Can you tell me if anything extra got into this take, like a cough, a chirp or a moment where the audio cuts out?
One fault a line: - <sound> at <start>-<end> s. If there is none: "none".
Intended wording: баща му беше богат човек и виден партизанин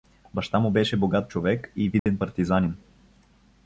- dropout at 2.0-2.1 s